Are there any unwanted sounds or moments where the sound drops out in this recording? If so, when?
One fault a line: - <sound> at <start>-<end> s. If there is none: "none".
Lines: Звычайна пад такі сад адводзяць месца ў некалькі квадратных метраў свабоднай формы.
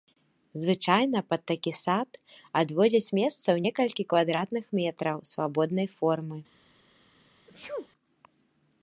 - sneeze at 7.5-7.9 s